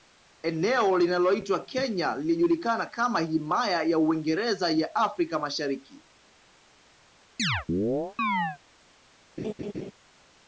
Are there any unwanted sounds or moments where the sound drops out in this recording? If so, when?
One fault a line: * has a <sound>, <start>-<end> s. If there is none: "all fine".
* has a chirp, 7.4-8.6 s
* has a laugh, 9.4-9.9 s